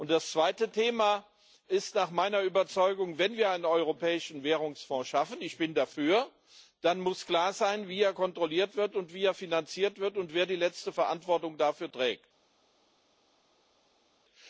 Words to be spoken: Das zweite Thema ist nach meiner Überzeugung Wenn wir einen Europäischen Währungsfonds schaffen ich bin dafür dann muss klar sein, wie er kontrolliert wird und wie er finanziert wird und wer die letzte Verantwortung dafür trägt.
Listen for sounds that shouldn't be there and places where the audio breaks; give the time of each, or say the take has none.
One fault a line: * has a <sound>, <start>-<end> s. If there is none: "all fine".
all fine